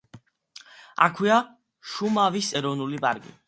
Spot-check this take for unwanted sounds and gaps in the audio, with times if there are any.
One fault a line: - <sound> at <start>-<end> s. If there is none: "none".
none